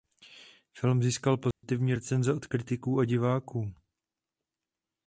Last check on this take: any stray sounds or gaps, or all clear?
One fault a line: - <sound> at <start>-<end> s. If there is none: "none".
- dropout at 1.5-1.6 s